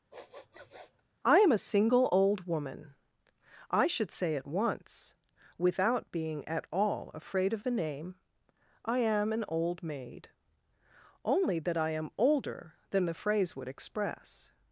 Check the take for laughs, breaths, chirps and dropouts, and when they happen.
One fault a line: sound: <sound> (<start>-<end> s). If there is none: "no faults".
sound: sniff (0.1-1.0 s)